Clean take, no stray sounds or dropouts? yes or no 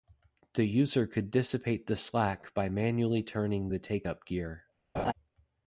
no